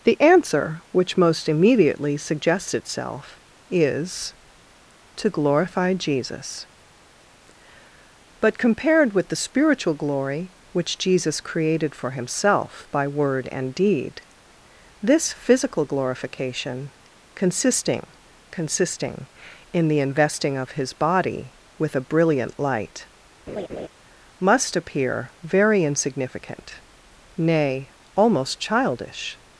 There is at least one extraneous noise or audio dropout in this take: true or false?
true